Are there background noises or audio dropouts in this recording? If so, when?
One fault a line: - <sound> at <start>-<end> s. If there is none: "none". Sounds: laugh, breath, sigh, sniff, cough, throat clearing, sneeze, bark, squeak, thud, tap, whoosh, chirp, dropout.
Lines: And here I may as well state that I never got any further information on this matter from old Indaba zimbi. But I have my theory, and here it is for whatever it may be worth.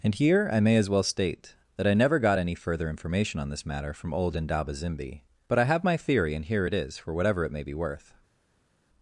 none